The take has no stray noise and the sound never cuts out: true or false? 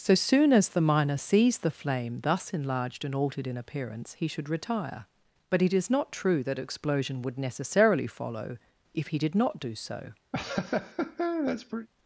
false